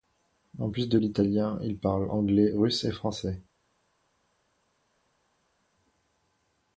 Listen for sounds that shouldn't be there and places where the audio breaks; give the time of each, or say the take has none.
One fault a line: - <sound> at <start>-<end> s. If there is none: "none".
none